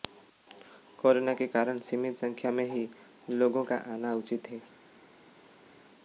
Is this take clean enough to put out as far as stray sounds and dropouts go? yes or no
yes